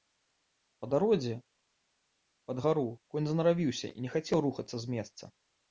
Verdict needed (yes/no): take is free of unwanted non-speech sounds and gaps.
yes